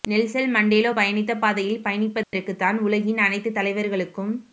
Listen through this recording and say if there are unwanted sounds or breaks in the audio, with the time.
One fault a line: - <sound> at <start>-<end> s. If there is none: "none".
- dropout at 2.2-2.3 s